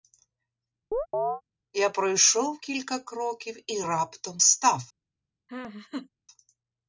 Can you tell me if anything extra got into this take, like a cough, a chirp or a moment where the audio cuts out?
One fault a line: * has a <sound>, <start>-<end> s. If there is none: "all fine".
* has a chirp, 0.9-1.4 s
* has a laugh, 5.5-6.1 s